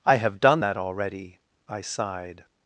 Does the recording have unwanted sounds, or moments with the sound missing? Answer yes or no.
no